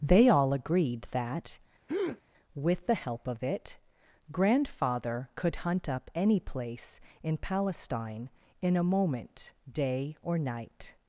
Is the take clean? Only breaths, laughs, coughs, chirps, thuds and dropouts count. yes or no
no